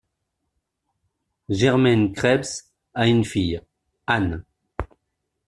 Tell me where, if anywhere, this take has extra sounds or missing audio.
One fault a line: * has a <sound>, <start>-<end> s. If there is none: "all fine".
all fine